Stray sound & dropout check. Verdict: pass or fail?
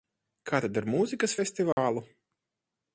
fail